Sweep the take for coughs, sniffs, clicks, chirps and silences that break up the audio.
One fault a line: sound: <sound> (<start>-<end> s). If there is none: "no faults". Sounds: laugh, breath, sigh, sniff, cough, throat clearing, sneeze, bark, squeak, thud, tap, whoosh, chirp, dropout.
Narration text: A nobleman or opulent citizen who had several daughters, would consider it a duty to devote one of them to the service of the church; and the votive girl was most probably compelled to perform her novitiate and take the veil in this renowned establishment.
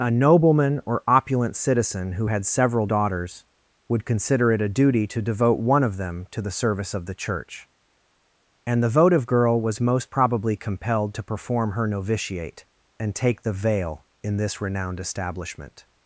no faults